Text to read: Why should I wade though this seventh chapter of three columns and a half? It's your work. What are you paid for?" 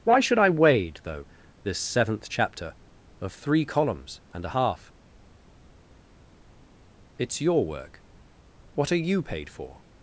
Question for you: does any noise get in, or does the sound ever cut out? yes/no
no